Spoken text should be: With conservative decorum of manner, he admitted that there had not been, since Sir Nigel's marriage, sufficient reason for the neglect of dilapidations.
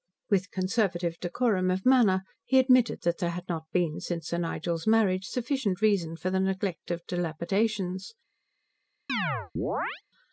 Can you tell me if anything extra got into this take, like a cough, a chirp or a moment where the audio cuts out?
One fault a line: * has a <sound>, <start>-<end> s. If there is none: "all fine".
* has a chirp, 9.1-10.0 s